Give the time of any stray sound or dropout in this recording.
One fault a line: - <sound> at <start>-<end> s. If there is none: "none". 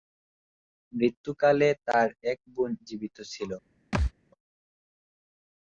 - thud at 3.9-4.1 s